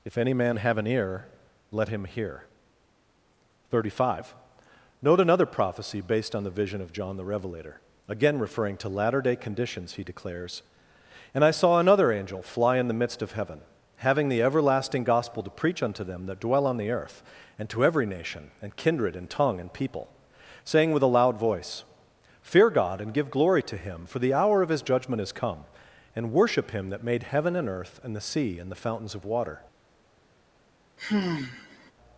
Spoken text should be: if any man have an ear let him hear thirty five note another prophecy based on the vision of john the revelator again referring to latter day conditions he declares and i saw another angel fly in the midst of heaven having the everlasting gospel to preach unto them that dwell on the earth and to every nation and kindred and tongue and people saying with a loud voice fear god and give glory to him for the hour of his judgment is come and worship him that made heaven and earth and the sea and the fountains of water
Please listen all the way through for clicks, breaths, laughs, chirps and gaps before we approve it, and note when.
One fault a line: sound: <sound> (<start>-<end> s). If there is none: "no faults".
sound: sigh (31.0-31.9 s)